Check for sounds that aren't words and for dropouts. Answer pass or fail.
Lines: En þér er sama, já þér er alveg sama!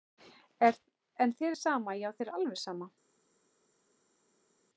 pass